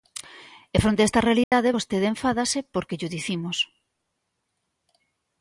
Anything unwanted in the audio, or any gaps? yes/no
yes